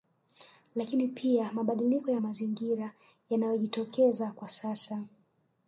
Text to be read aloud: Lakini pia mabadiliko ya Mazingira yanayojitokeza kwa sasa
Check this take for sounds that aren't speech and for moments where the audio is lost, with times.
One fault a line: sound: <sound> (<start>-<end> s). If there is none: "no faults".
no faults